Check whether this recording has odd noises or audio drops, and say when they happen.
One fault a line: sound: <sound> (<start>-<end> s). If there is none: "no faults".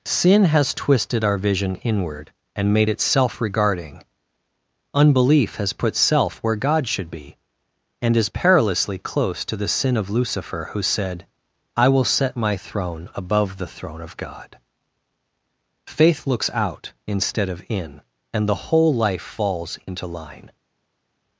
no faults